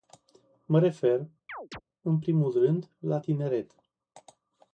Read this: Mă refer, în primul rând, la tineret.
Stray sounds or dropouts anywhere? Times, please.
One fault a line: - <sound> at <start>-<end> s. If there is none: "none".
- chirp at 1.5-1.8 s